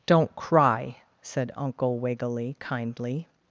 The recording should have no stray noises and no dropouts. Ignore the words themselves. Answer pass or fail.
pass